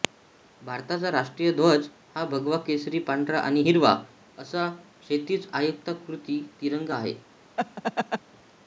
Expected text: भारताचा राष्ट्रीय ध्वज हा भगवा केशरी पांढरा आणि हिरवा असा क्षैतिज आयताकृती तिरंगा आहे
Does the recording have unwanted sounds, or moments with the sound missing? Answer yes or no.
yes